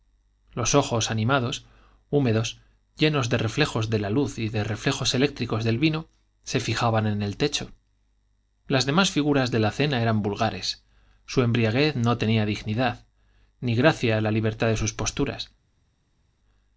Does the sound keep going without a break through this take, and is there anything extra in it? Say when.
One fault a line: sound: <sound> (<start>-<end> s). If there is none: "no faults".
no faults